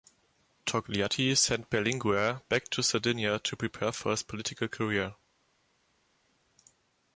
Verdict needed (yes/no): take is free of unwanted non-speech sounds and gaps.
yes